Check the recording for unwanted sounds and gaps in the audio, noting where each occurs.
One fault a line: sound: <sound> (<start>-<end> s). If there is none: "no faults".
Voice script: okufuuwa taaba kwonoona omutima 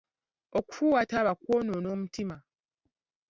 no faults